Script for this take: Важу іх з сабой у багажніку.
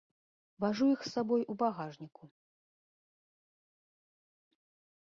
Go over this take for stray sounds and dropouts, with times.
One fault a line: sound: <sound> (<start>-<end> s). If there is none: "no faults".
no faults